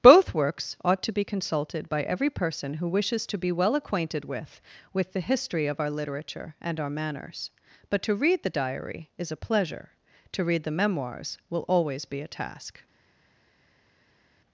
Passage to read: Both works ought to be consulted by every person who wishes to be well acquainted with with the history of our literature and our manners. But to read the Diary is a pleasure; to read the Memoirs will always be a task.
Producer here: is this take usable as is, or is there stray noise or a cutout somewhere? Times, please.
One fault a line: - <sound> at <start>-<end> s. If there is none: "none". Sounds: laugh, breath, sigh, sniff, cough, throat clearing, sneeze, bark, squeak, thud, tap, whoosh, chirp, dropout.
none